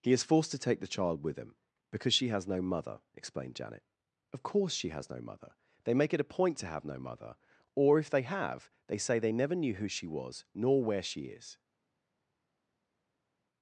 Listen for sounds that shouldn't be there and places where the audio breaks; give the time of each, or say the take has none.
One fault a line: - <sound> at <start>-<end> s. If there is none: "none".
none